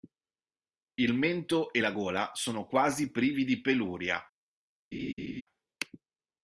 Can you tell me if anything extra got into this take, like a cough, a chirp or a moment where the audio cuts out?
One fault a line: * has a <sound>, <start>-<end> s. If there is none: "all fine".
* has a laugh, 4.9-5.4 s